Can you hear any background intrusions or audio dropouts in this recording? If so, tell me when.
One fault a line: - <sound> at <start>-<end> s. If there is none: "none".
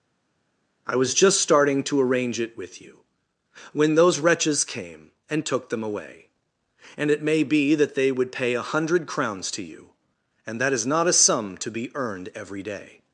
none